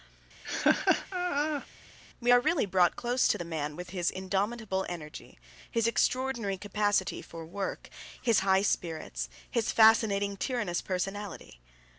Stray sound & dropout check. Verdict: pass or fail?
fail